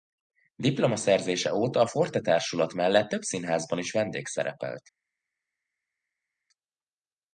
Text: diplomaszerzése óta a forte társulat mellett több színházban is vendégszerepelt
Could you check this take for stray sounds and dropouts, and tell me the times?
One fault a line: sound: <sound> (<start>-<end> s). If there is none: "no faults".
no faults